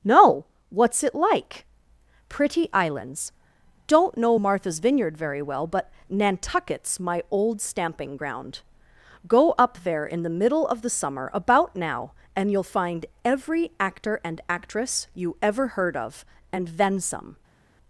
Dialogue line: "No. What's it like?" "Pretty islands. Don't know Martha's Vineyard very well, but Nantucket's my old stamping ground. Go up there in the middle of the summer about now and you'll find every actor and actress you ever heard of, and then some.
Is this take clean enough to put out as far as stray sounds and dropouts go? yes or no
yes